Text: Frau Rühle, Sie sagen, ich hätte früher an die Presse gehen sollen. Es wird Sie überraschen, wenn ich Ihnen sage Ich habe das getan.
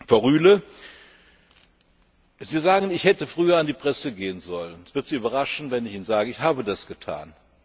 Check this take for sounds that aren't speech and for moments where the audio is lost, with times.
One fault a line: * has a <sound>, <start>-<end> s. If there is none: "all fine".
all fine